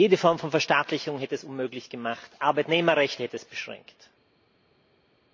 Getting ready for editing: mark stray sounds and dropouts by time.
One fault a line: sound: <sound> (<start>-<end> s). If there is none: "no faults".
no faults